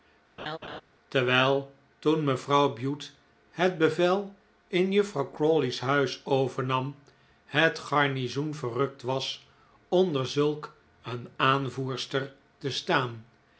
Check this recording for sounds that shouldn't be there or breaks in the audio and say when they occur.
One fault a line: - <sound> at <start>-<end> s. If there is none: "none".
- laugh at 0.4-0.8 s